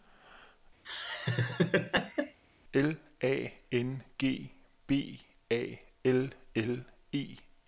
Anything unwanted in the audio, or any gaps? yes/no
yes